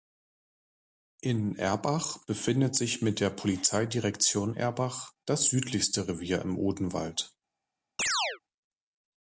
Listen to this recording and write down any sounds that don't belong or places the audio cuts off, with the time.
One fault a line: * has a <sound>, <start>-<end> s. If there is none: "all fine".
* has a chirp, 8.0-8.4 s